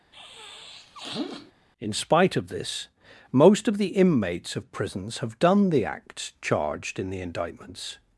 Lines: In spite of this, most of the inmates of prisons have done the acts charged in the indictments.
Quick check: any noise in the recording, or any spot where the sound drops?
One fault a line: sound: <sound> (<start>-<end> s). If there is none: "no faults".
sound: sniff (0.1-1.5 s)